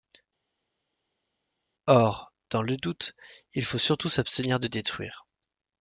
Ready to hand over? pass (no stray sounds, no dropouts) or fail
pass